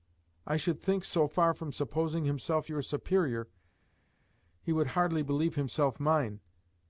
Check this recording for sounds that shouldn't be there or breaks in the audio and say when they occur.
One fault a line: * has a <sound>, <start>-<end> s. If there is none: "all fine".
all fine